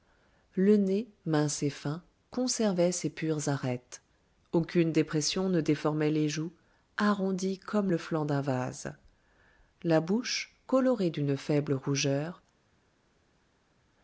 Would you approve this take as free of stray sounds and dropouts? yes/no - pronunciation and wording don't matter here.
yes